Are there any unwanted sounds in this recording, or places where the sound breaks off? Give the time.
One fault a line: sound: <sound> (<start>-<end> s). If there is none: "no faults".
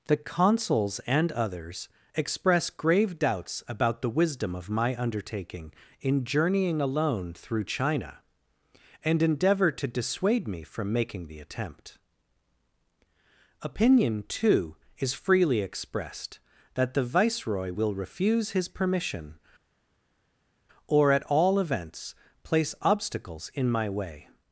no faults